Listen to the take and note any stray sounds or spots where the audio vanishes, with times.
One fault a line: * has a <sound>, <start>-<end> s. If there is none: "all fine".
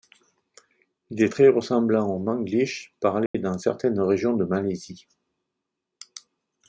* has a dropout, 3.3-3.3 s